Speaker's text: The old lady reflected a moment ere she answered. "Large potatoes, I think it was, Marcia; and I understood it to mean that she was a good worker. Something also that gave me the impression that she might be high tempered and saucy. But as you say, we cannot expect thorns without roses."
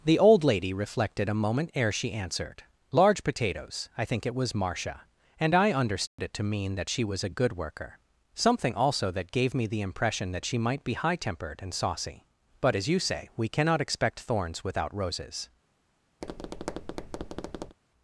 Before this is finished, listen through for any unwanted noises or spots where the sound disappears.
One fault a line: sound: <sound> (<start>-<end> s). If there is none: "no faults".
sound: dropout (6.1-6.2 s)
sound: tap (16.2-17.8 s)